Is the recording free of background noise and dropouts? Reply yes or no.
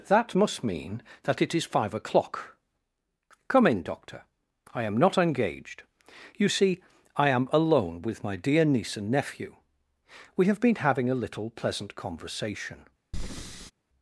no